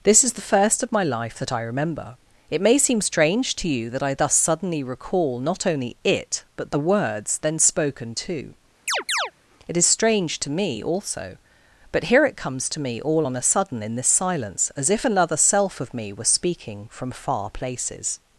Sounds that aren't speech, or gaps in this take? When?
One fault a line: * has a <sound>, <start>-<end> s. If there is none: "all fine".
* has a chirp, 8.9-9.3 s